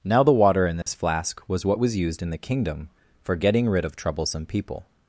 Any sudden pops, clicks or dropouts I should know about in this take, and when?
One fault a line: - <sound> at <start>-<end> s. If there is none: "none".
- dropout at 0.8-0.9 s